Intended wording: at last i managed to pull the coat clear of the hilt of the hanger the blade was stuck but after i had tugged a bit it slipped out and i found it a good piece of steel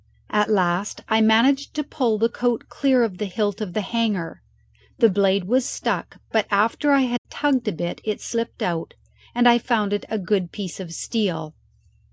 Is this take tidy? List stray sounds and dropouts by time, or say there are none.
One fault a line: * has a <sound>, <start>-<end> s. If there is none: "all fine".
* has a dropout, 7.2-7.3 s